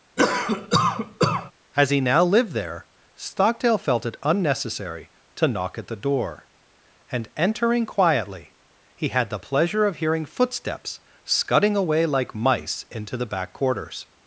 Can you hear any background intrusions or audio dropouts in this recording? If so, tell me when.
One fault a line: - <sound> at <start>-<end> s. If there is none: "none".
- cough at 0.2-1.5 s